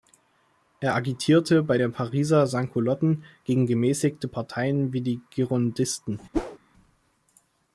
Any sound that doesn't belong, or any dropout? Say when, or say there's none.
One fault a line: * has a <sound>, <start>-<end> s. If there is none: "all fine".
* has a whoosh, 6.3-6.6 s